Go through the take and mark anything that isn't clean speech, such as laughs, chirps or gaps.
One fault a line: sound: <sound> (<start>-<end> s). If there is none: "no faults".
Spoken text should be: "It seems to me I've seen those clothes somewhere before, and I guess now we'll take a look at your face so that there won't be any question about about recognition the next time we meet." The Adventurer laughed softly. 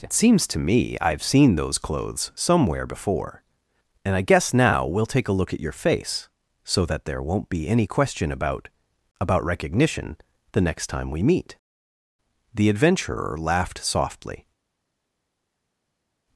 no faults